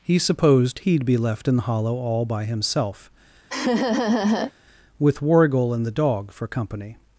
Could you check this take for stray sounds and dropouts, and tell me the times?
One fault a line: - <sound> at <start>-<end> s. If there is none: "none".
- laugh at 3.5-4.5 s